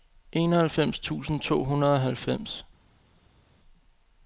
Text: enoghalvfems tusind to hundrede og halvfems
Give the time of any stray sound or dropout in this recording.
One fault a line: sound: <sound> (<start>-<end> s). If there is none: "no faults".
no faults